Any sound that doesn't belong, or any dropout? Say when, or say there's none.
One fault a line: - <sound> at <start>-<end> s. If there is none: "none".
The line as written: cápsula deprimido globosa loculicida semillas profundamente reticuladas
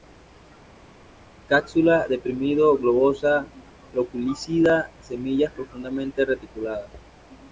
none